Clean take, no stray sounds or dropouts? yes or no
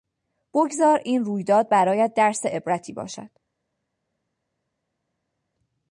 yes